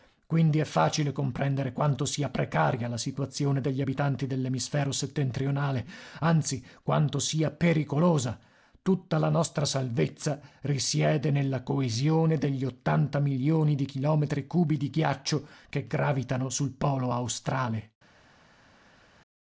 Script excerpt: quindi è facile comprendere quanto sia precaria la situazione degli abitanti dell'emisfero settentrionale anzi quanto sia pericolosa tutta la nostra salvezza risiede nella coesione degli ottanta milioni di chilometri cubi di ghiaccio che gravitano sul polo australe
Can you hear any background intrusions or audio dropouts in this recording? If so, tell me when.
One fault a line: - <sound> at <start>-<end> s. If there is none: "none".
none